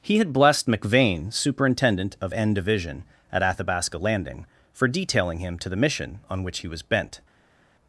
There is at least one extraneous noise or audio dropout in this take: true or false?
false